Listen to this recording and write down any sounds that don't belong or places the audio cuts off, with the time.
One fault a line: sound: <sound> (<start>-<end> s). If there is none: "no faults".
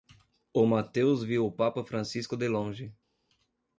no faults